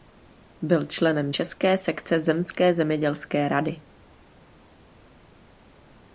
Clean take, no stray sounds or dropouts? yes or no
yes